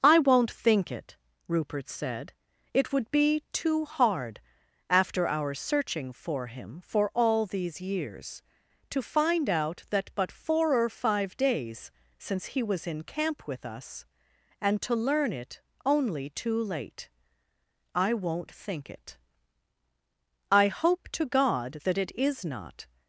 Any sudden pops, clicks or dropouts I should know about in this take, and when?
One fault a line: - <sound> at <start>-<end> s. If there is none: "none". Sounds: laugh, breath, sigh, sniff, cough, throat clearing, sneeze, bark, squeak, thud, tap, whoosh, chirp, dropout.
none